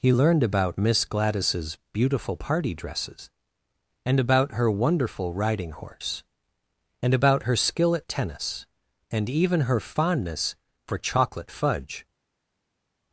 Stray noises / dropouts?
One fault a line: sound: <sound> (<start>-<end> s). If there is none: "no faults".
no faults